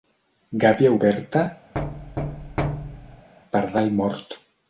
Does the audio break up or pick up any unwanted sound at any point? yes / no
yes